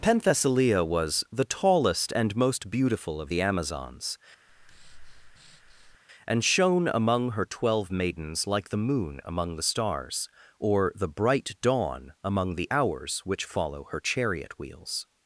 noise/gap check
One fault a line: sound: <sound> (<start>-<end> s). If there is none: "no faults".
sound: breath (4.5-6.0 s)